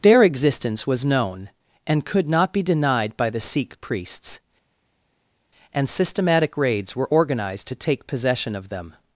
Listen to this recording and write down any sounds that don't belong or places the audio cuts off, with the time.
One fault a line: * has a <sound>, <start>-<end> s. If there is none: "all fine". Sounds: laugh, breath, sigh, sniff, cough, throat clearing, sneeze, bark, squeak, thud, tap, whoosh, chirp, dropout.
all fine